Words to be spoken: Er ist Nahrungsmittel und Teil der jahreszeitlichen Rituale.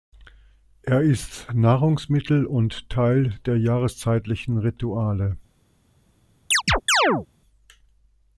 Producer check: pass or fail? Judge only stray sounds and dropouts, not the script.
fail